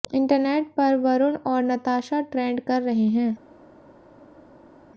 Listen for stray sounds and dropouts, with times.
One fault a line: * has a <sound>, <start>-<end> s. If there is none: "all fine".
all fine